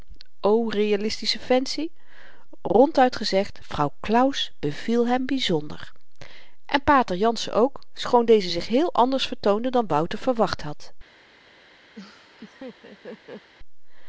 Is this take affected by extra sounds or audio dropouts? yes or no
yes